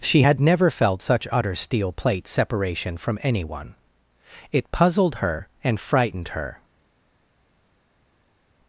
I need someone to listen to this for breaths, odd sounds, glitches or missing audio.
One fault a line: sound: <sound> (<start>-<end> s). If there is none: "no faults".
no faults